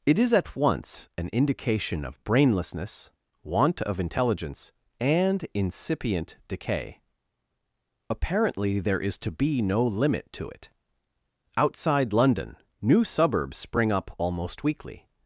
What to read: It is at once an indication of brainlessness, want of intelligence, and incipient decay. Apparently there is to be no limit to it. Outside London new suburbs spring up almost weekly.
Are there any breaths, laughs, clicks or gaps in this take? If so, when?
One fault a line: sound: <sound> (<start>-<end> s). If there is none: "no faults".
no faults